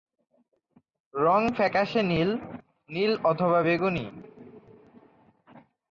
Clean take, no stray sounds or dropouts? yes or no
yes